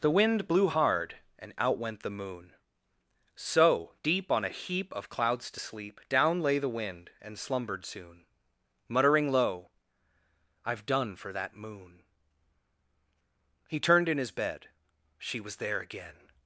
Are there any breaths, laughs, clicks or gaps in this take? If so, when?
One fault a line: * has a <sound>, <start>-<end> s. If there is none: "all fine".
all fine